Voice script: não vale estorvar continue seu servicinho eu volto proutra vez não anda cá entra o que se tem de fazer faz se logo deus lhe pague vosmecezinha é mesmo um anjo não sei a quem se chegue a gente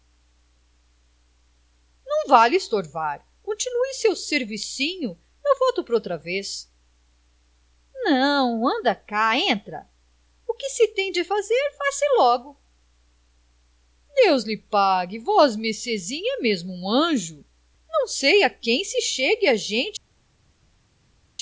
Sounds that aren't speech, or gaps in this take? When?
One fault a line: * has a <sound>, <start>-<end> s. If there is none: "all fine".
all fine